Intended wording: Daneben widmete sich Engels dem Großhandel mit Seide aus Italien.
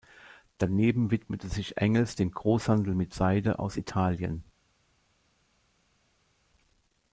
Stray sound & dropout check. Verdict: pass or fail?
pass